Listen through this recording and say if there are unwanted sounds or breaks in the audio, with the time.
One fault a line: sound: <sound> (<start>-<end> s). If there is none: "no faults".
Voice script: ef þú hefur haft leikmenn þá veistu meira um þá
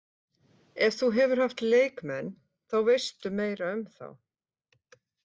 no faults